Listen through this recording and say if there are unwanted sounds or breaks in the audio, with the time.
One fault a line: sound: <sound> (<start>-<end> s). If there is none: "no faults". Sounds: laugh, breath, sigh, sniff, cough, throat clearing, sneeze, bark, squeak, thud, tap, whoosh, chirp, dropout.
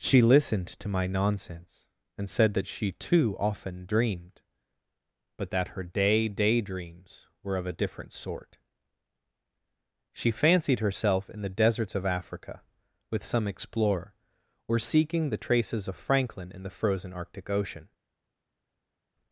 no faults